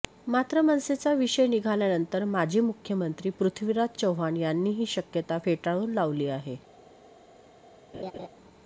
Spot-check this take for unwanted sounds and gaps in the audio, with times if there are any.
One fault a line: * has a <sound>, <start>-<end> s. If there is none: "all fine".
* has a laugh, 7.9-8.3 s